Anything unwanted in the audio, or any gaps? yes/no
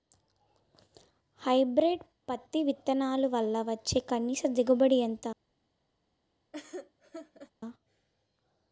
yes